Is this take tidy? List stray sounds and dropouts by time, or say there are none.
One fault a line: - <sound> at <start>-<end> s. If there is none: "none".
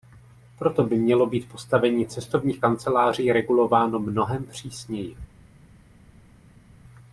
none